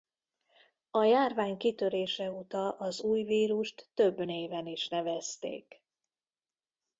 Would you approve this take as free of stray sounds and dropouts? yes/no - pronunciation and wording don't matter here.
yes